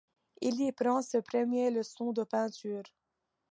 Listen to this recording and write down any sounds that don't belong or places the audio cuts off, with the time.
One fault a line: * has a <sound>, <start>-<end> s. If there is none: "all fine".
all fine